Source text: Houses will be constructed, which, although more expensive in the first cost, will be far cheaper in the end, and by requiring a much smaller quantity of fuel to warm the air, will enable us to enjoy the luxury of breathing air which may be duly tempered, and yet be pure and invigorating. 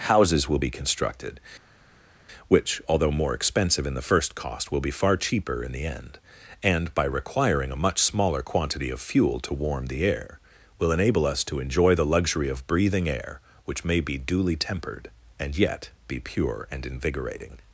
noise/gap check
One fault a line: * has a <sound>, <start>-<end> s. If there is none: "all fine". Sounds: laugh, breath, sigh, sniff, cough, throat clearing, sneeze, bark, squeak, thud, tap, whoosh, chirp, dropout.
all fine